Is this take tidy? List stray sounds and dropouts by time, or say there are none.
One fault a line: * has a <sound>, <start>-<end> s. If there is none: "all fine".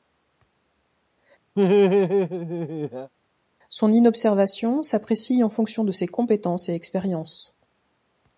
* has a laugh, 1.6-3.1 s